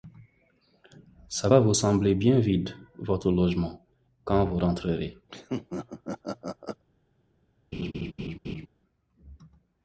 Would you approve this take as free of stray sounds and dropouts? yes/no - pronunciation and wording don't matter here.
no